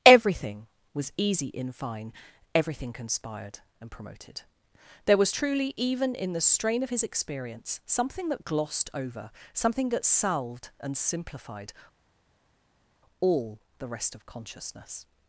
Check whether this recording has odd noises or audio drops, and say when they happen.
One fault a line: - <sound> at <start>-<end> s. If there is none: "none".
none